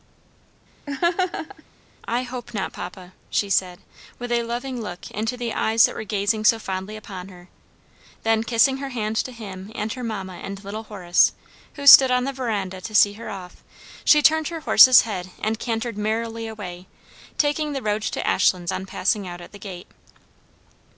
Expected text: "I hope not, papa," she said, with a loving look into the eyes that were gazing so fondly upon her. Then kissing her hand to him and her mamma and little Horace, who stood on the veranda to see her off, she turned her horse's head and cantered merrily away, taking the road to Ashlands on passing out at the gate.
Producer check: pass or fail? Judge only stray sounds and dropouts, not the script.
fail